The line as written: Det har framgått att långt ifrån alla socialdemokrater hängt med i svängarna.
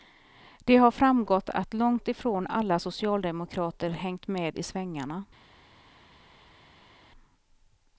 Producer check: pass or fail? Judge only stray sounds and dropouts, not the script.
pass